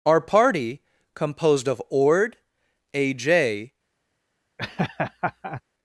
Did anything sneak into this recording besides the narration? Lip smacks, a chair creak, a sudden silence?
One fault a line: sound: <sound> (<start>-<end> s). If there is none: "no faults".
sound: laugh (4.6-5.6 s)